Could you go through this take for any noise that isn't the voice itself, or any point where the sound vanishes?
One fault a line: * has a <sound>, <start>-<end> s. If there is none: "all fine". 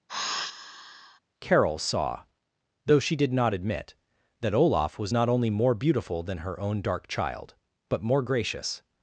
* has a sigh, 0.1-1.2 s